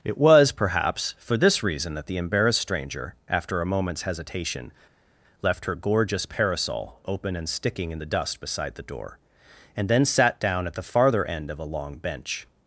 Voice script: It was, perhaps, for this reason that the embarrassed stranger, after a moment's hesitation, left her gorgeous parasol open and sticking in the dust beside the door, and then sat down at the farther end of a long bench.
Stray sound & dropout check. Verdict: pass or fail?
pass